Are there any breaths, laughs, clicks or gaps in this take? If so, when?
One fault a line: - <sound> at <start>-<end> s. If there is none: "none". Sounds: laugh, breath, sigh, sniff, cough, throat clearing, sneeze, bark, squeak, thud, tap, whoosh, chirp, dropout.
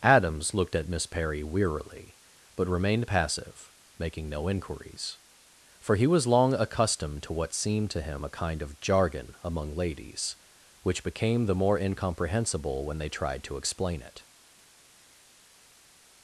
none